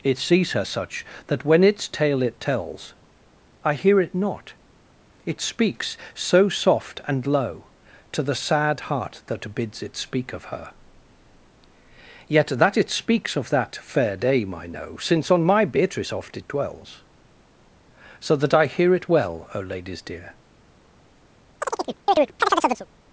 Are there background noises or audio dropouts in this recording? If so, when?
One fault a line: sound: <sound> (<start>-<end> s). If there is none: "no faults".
sound: chirp (21.6-22.9 s)